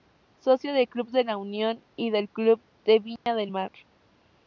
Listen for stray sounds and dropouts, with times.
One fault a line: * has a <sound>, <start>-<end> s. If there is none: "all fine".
* has a dropout, 3.2-3.3 s